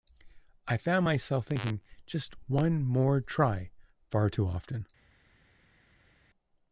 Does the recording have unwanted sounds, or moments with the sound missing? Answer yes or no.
no